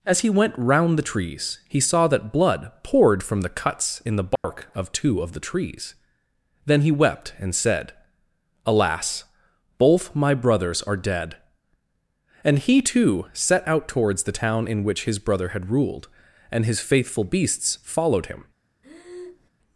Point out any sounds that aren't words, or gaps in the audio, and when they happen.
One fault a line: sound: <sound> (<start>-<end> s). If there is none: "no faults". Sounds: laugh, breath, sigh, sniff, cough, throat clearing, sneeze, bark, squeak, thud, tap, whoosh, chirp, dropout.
sound: dropout (4.4-4.4 s)
sound: breath (18.8-19.5 s)